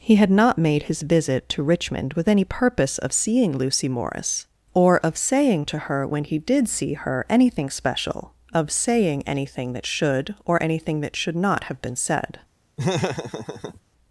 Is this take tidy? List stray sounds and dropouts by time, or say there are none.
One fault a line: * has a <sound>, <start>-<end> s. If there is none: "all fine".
* has a laugh, 12.8-13.8 s